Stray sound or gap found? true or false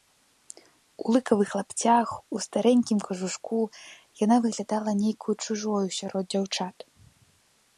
false